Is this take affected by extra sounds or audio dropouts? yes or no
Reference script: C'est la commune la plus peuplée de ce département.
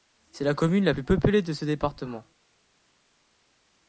no